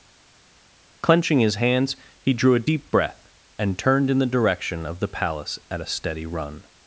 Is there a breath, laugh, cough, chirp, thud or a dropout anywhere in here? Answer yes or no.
no